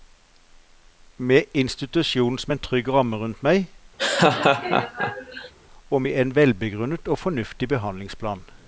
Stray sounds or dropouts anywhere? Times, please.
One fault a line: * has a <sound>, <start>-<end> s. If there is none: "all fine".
* has a laugh, 4.0-5.5 s